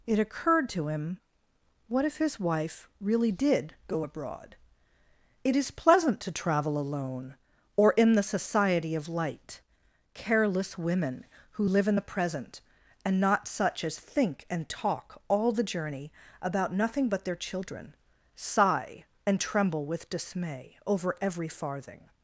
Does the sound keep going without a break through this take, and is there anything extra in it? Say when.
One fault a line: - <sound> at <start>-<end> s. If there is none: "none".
none